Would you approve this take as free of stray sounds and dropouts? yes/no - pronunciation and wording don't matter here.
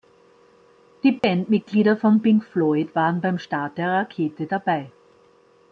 no